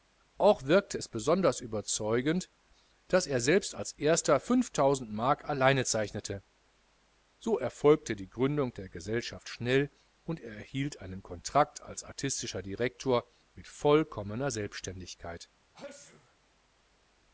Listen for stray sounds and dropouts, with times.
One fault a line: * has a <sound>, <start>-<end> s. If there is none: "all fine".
* has a sneeze, 15.7-16.4 s